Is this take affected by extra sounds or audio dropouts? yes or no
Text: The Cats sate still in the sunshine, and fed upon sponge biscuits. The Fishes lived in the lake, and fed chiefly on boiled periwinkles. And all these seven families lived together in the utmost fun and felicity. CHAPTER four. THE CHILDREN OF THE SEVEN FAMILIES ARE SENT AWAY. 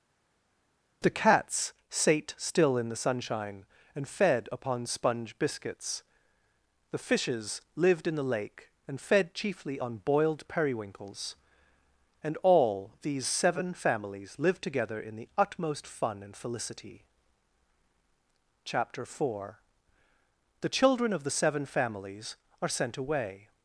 no